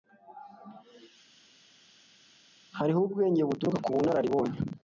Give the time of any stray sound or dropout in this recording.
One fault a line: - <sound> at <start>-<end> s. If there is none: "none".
none